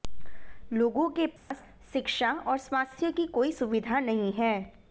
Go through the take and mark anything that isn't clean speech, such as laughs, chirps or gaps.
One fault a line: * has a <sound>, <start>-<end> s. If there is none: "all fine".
* has a dropout, 1.4-1.5 s